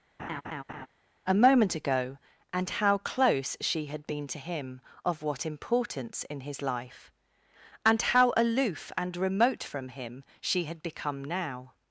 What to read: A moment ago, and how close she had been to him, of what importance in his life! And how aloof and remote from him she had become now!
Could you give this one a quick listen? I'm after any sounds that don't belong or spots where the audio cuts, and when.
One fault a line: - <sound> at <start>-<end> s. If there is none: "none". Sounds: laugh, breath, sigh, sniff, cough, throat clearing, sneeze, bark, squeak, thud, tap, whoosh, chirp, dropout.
- laugh at 0.2-0.9 s